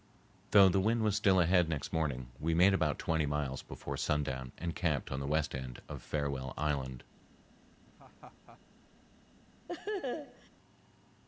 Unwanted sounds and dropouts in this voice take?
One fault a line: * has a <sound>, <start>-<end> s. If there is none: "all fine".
* has a laugh, 7.9-8.6 s
* has a laugh, 9.7-10.5 s